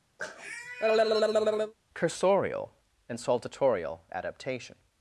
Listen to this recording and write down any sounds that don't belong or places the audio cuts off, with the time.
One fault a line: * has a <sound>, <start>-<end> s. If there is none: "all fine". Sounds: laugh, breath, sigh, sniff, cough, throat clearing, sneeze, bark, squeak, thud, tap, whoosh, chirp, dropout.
* has a cough, 0.2-1.7 s